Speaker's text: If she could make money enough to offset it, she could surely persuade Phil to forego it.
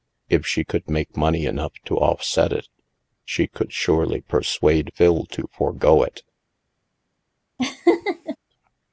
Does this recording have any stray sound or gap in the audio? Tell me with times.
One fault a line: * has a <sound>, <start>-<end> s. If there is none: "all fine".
* has a laugh, 7.6-8.4 s